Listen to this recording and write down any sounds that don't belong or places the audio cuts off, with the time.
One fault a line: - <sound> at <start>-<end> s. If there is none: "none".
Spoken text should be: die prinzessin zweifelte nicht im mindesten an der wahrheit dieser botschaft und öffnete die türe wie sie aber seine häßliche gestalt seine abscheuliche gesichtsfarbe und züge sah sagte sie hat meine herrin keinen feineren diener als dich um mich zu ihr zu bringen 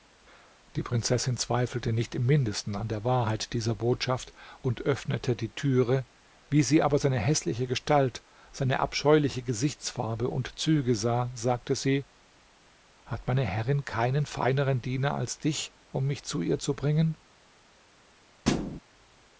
- thud at 18.4-18.8 s